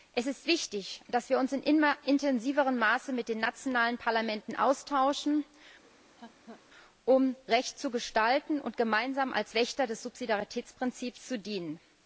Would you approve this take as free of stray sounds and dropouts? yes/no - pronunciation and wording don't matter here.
no